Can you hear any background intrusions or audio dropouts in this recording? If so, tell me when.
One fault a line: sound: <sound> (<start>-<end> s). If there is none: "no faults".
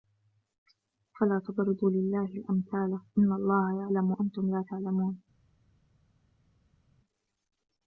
no faults